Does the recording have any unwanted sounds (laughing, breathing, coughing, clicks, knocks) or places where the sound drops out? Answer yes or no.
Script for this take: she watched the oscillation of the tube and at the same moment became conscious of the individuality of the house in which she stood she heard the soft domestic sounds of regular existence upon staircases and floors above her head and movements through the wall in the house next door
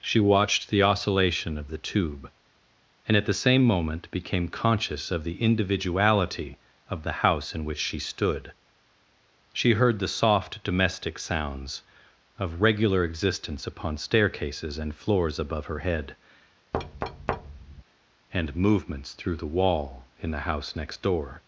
yes